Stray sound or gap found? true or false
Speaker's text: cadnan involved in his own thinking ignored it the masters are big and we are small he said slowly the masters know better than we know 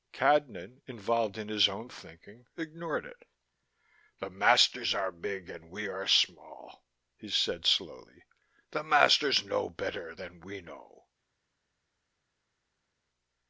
false